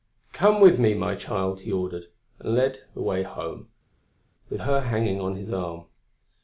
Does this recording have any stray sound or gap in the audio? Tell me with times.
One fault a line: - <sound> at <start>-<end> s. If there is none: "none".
none